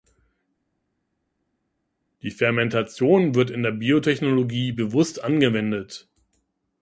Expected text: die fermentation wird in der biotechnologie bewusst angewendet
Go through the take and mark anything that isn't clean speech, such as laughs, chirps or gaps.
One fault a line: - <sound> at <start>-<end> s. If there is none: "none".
none